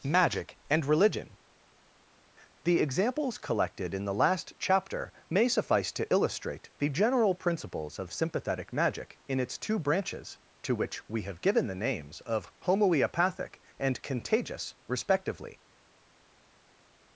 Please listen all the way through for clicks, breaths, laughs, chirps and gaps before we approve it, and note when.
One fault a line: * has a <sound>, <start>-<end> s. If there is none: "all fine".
all fine